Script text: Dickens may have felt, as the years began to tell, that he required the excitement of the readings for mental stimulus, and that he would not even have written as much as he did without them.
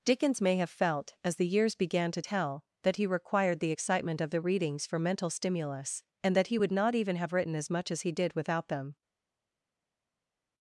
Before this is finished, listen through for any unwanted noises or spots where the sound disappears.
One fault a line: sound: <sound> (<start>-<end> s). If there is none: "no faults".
no faults